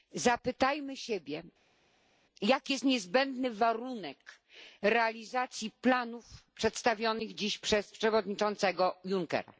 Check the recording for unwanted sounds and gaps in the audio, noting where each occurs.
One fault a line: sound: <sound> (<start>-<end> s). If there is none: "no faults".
no faults